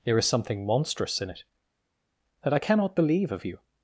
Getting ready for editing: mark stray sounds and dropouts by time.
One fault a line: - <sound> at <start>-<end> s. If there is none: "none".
none